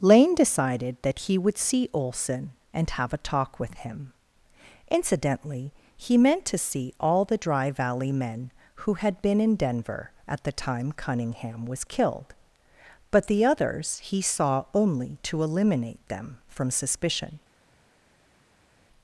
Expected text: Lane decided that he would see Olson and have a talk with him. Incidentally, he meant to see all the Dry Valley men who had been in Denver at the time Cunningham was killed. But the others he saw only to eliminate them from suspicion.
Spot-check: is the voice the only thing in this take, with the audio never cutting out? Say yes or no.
yes